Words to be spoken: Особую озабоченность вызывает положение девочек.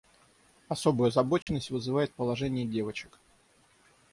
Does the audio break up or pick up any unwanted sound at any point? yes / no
yes